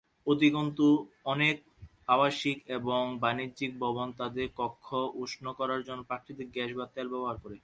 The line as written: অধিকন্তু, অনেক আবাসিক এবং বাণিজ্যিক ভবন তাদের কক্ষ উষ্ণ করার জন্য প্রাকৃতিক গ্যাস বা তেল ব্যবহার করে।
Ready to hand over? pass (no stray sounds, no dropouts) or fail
pass